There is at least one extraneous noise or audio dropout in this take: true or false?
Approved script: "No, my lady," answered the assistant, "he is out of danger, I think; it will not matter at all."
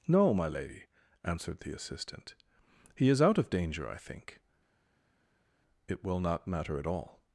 false